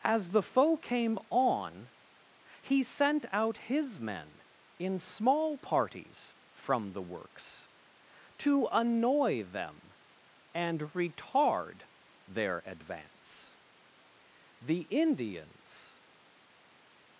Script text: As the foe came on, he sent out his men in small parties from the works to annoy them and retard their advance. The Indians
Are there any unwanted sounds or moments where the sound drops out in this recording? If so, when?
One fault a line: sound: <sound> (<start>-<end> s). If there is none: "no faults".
no faults